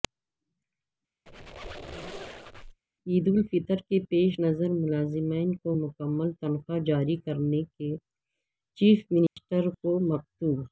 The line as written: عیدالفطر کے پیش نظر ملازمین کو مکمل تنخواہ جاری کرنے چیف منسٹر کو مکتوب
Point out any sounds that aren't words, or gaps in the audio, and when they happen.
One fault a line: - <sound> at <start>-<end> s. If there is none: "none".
- squeak at 1.3-2.8 s
- dropout at 9.3-9.4 s